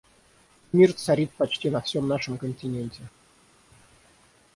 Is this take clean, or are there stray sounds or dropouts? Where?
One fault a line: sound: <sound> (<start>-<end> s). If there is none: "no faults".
no faults